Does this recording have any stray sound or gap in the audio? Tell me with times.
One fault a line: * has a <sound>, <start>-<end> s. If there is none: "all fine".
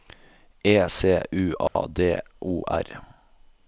* has a dropout, 1.7-1.8 s